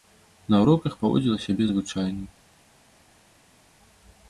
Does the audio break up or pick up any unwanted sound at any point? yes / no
no